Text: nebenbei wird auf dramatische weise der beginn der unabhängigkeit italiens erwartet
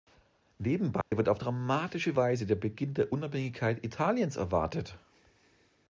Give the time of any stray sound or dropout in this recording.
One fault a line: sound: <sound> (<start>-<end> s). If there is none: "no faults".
sound: dropout (1.0-1.1 s)